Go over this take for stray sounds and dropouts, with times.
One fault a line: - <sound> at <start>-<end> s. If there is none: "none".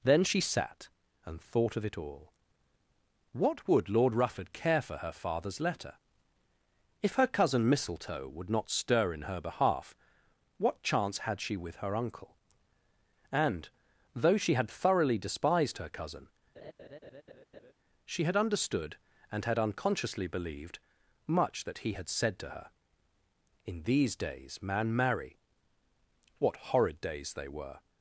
- laugh at 16.6-17.7 s